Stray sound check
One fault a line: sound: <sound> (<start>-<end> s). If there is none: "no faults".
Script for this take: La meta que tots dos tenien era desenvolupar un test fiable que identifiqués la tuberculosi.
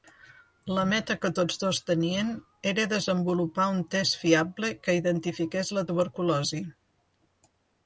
no faults